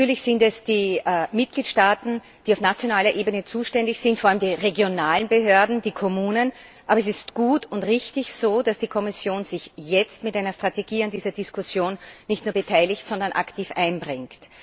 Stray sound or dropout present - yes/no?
no